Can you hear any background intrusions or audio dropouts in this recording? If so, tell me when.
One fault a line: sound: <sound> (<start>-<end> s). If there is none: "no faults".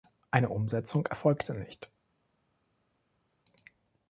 no faults